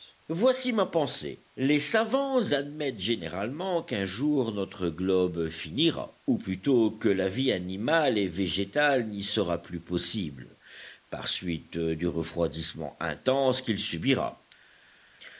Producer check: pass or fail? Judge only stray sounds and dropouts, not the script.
pass